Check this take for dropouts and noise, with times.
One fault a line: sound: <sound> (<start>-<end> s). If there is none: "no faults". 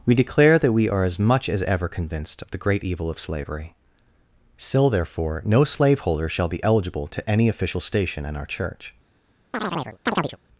sound: chirp (9.5-10.4 s)